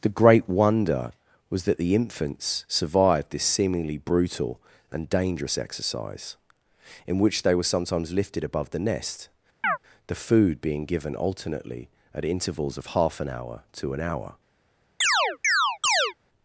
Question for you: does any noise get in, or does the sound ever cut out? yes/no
yes